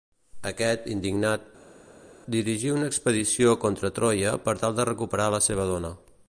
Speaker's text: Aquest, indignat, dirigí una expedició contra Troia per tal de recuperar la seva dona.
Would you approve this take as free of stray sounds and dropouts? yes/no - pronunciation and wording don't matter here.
yes